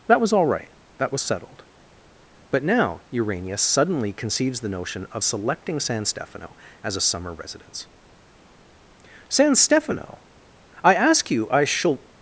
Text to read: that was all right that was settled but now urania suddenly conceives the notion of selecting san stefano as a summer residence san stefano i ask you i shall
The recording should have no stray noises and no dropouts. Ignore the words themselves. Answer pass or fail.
pass